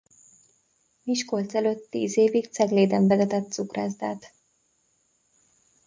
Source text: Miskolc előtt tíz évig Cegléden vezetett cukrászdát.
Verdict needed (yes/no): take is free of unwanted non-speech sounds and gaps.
yes